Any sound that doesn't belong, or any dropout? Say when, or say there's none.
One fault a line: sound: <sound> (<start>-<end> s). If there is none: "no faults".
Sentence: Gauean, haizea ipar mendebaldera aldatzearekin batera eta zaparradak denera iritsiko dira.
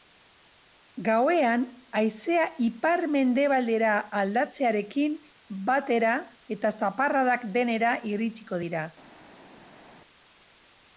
no faults